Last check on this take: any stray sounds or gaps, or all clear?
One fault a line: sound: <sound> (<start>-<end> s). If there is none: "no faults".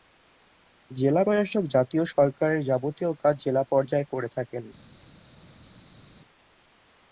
no faults